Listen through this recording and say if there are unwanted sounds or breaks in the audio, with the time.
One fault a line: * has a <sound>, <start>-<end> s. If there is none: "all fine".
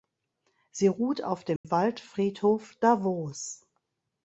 * has a dropout, 1.6-1.6 s